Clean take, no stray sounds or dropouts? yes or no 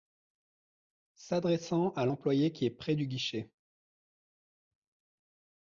yes